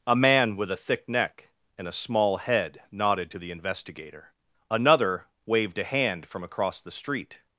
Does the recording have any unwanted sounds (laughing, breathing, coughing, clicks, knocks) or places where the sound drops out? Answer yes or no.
no